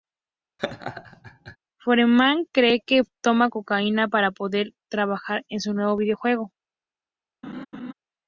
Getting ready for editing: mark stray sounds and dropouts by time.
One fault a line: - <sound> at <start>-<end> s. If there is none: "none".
- laugh at 0.6-1.6 s
- laugh at 7.4-7.9 s